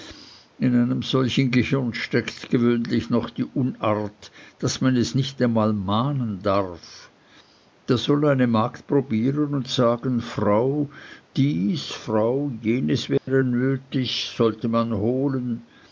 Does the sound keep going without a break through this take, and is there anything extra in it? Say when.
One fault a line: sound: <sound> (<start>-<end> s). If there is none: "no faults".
sound: dropout (13.2-13.3 s)